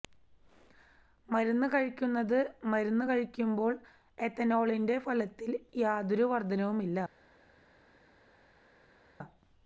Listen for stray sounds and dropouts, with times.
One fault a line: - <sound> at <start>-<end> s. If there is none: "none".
none